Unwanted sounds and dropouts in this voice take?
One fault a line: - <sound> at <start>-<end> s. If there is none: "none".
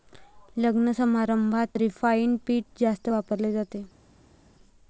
none